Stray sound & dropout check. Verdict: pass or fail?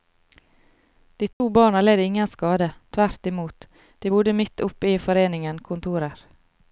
fail